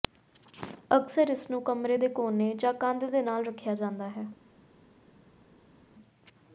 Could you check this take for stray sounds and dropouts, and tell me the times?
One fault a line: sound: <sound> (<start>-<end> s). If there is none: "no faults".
no faults